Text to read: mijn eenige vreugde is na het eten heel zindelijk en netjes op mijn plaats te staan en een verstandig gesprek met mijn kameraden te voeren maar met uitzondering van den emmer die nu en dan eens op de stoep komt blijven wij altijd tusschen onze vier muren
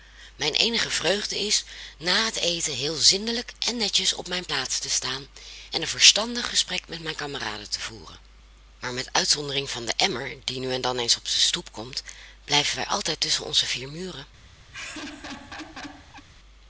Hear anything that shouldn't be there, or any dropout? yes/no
yes